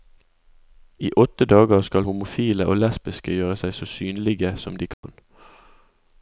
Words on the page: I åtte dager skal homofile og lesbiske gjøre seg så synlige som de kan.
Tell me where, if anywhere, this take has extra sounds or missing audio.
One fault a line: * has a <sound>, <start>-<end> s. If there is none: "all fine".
* has a dropout, 4.9-5.0 s